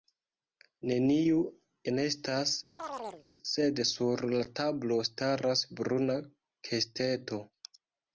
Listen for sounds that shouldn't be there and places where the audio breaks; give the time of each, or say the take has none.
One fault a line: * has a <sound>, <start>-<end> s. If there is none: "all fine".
* has a chirp, 2.8-3.3 s